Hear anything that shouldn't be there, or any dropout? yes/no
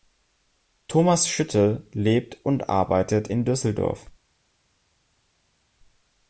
no